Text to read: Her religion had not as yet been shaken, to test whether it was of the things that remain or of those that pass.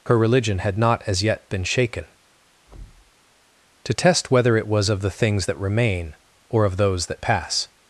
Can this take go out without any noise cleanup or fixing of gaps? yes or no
no